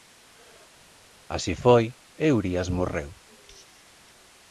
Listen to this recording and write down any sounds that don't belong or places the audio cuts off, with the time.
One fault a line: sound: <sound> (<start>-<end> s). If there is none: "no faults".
no faults